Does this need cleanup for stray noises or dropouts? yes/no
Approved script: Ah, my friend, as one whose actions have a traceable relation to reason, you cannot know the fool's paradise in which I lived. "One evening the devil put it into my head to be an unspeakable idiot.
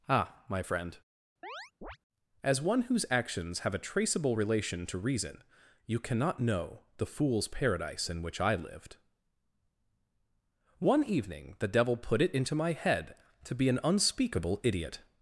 yes